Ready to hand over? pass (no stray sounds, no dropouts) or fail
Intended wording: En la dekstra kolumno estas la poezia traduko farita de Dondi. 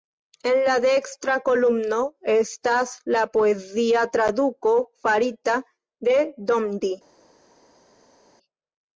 pass